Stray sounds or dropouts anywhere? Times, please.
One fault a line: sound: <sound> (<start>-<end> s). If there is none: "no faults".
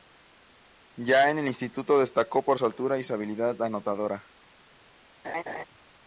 sound: laugh (5.2-5.6 s)